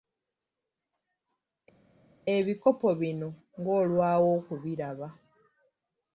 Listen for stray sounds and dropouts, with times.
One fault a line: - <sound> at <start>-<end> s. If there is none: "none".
none